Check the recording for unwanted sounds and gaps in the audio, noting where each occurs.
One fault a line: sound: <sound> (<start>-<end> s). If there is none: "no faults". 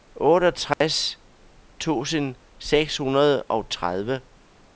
sound: dropout (0.7-0.8 s)